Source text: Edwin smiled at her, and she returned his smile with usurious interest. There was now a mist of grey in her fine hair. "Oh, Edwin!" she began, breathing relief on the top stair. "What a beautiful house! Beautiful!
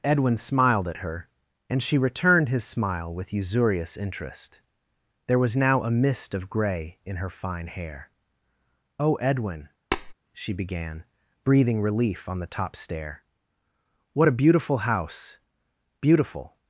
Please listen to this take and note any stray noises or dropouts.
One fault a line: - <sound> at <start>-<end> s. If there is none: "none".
- tap at 9.9-10.1 s